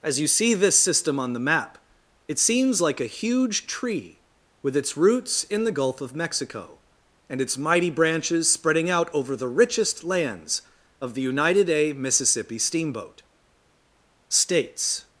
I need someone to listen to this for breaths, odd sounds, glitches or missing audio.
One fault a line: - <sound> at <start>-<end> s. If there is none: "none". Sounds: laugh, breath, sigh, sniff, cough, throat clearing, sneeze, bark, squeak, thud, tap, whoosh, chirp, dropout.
none